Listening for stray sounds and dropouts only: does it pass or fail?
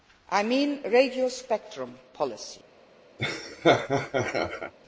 fail